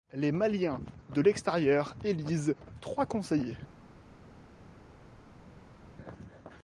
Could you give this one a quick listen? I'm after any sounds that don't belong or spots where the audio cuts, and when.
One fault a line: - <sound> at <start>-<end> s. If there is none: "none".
none